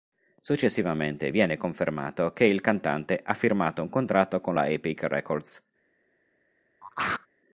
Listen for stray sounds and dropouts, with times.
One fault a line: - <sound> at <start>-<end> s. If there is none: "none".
- throat clearing at 6.8-7.3 s